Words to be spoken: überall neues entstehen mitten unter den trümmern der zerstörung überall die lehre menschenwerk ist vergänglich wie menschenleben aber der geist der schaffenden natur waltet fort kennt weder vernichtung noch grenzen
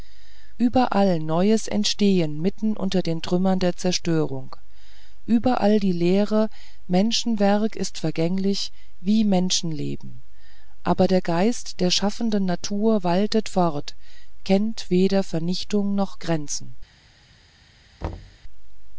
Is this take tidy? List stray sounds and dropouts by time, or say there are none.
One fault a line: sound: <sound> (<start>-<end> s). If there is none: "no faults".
sound: thud (18.0-18.4 s)